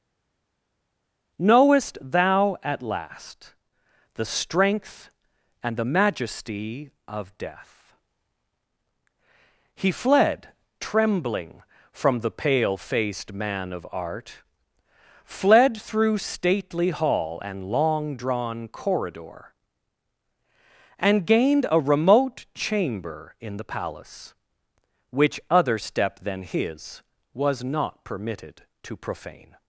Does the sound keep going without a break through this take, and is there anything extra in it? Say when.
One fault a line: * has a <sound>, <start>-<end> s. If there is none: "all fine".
all fine